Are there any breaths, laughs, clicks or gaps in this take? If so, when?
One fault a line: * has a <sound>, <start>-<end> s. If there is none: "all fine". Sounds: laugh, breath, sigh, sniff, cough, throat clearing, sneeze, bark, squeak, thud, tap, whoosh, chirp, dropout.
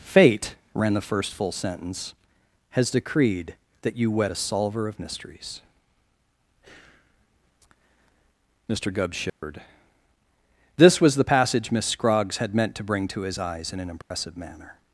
* has a dropout, 9.3-9.4 s
* has a dropout, 14.0-14.1 s